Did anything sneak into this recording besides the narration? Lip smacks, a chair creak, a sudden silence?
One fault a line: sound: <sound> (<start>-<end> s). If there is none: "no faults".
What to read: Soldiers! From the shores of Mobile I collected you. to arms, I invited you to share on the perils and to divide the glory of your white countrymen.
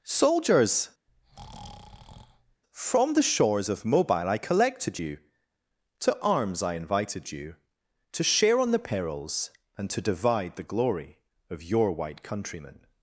sound: breath (1.1-2.6 s)